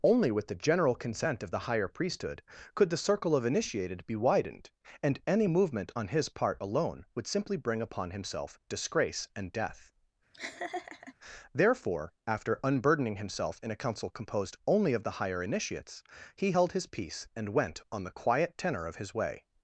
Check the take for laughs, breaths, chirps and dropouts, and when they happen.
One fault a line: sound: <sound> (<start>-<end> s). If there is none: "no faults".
sound: laugh (10.3-11.1 s)